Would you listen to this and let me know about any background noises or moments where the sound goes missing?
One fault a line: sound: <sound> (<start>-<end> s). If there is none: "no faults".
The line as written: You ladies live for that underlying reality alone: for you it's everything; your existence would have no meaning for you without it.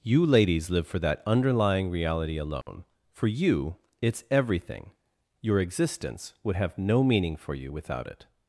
sound: dropout (2.6-2.7 s)